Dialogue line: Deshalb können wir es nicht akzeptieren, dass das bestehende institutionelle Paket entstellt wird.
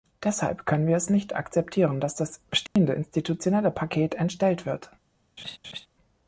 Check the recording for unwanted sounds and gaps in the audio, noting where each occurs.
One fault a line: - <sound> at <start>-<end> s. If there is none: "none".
- dropout at 2.7-2.8 s
- laugh at 5.4-5.9 s